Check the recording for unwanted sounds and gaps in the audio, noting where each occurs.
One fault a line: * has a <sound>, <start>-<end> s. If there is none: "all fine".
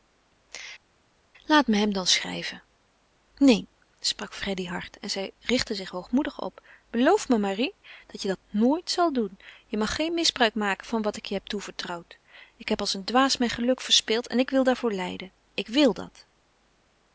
all fine